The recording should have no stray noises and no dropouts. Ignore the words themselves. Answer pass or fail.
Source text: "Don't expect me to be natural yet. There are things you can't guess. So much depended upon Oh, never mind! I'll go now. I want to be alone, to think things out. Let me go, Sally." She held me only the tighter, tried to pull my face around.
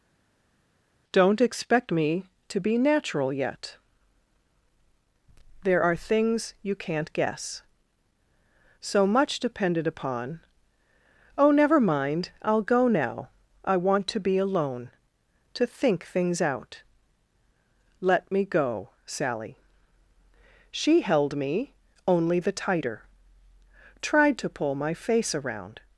pass